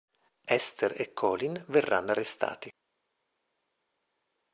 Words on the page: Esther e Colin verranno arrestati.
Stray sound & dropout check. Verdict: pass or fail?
pass